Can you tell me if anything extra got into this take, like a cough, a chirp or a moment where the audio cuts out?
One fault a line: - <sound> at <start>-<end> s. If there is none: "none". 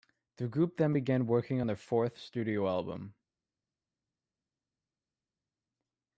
none